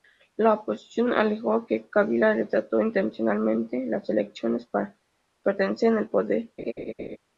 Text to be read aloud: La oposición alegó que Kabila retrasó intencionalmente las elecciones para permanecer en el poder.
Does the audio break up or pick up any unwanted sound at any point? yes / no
yes